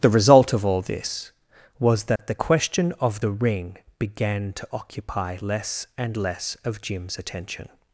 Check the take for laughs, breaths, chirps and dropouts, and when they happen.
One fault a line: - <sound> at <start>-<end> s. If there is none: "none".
- dropout at 2.2-2.2 s